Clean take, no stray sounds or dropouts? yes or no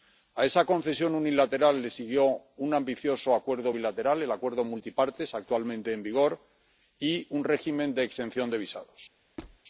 no